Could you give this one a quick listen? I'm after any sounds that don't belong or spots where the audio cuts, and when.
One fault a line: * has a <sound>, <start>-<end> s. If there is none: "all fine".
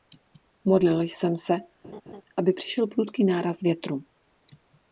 * has a laugh, 1.8-2.2 s